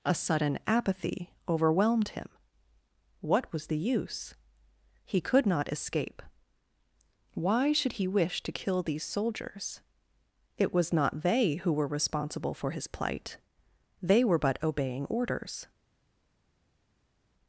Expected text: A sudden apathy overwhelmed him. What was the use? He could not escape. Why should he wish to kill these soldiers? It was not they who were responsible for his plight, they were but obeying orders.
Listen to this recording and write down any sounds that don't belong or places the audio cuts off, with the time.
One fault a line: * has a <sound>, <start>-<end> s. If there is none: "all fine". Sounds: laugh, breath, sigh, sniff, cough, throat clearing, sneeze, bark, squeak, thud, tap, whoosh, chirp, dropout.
all fine